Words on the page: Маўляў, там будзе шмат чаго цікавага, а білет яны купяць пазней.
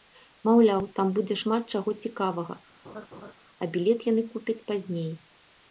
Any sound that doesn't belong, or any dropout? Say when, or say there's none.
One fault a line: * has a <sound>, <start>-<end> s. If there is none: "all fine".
* has a laugh, 2.8-3.3 s